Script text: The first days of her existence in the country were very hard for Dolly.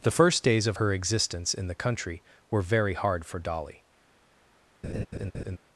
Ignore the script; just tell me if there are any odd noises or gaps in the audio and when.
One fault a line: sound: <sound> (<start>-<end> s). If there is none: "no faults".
sound: laugh (4.8-5.6 s)